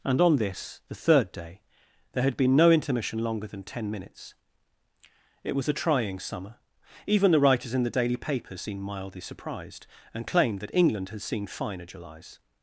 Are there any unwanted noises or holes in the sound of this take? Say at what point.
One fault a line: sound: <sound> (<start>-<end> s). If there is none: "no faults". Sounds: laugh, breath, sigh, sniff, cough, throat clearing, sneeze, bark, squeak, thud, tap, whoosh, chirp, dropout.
no faults